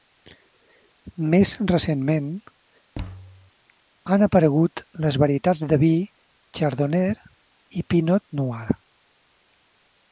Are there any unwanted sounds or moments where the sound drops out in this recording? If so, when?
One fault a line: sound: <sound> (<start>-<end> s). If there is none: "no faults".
sound: thud (2.9-3.5 s)